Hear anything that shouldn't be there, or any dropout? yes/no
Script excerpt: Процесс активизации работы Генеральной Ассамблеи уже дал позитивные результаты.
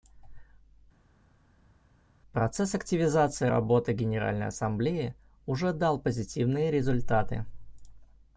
no